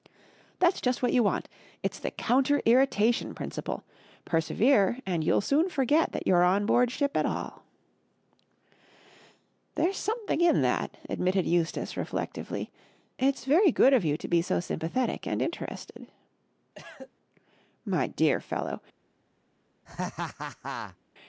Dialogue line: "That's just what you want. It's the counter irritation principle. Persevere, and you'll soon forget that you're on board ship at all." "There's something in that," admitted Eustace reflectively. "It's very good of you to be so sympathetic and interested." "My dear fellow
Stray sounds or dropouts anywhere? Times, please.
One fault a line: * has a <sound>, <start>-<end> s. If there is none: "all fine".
* has a cough, 16.8-17.1 s
* has a laugh, 19.8-21.0 s